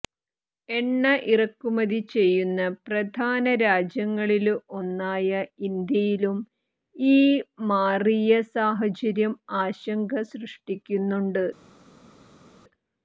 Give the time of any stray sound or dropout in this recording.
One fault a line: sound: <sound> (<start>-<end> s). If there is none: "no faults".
no faults